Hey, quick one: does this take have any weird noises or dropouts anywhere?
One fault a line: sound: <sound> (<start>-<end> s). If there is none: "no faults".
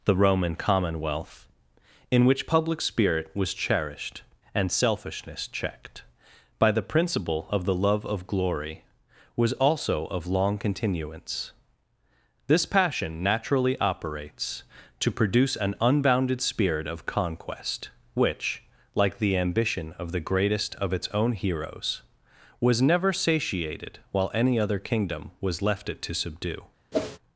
sound: whoosh (26.9-27.2 s)